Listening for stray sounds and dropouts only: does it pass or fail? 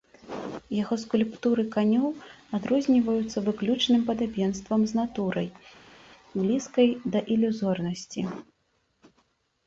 pass